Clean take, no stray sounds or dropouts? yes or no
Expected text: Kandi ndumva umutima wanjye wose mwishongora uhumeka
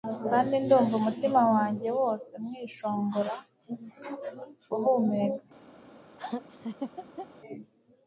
no